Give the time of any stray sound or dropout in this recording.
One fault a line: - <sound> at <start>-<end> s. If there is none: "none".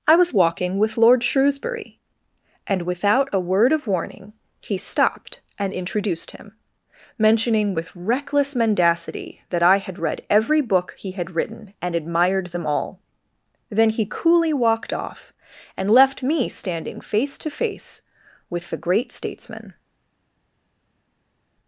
none